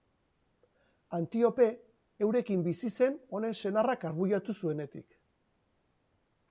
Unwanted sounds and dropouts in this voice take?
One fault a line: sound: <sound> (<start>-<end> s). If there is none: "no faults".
no faults